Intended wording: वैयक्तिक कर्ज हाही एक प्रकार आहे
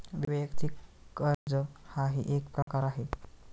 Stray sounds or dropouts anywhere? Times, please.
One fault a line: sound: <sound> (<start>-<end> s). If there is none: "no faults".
sound: dropout (1.3-1.5 s)
sound: dropout (2.6-2.7 s)